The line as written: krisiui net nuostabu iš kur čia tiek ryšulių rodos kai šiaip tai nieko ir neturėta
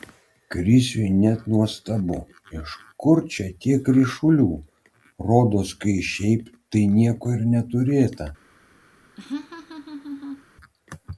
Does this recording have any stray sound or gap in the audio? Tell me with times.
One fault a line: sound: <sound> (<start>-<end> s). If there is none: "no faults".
sound: laugh (9.2-10.4 s)